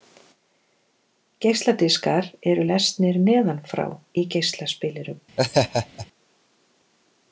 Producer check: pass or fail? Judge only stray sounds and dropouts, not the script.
fail